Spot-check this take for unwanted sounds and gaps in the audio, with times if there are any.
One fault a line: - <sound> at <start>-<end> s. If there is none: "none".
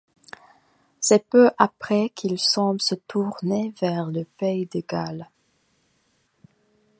none